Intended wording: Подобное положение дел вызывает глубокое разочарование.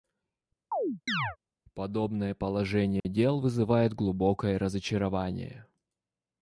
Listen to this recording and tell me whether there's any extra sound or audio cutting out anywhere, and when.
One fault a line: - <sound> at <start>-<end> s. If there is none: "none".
- chirp at 0.7-1.4 s
- dropout at 3.0-3.0 s